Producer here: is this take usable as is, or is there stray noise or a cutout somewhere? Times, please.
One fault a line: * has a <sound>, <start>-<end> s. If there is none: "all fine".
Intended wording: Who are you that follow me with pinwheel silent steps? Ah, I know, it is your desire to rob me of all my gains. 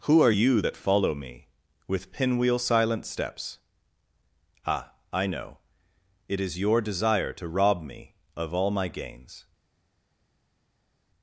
all fine